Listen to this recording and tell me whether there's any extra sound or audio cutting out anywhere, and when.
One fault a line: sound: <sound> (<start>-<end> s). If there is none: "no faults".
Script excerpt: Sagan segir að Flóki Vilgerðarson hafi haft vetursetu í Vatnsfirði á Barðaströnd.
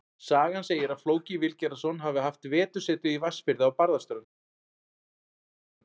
no faults